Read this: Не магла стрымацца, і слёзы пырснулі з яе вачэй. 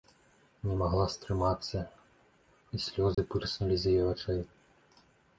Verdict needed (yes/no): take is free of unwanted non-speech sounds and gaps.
no